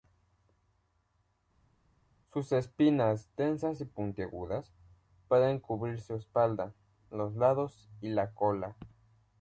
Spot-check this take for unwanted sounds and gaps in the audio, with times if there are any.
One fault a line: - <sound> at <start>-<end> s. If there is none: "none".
none